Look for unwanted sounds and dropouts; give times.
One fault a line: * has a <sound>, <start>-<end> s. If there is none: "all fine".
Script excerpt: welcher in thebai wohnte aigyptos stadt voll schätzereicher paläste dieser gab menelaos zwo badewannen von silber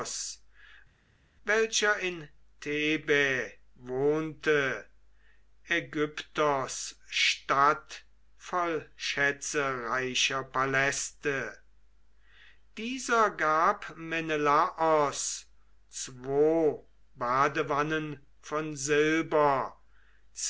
all fine